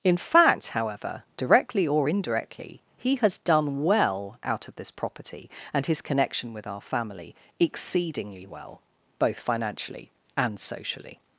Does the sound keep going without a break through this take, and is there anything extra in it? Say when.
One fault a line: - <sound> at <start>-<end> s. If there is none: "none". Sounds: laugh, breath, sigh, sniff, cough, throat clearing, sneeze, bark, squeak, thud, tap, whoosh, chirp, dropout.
none